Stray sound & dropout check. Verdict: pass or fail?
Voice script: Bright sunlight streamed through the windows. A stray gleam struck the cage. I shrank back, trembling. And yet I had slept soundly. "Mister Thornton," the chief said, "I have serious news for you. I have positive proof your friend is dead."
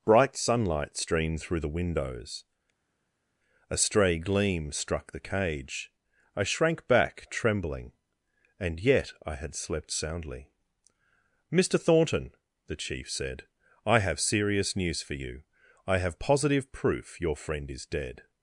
pass